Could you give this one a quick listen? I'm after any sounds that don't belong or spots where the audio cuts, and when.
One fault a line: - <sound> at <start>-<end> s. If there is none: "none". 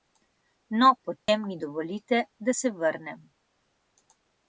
- dropout at 1.2-1.3 s